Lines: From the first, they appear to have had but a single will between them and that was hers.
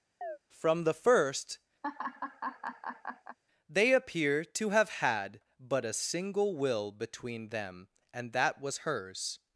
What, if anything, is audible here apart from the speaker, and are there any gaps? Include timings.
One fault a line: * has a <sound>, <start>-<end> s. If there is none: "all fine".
* has a chirp, 0.2-0.4 s
* has a laugh, 1.8-3.4 s